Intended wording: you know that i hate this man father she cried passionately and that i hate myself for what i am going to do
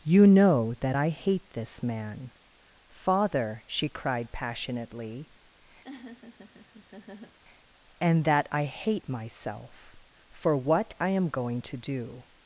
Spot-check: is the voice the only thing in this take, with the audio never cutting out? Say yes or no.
no